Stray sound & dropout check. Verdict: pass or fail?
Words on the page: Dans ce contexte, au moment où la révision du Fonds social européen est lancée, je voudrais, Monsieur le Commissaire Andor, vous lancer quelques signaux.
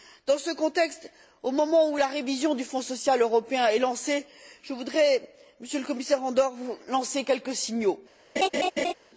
fail